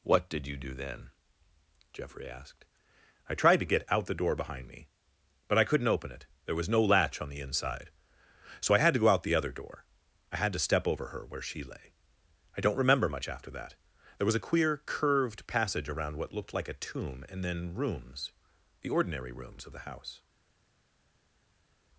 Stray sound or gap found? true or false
false